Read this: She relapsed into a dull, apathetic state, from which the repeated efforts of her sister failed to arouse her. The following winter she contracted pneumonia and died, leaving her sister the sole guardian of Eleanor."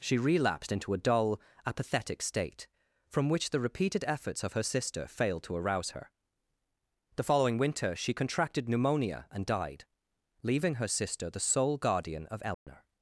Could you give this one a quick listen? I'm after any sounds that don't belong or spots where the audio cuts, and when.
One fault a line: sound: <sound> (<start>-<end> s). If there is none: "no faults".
sound: dropout (12.5-12.7 s)